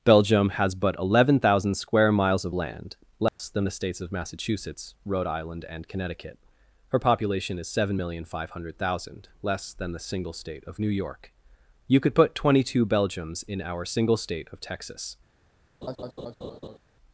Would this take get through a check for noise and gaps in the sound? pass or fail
fail